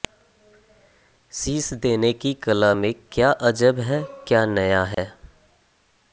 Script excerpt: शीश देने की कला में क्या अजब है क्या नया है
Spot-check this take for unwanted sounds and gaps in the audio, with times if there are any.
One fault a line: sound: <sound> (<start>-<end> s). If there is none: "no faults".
sound: dropout (4.9-5.0 s)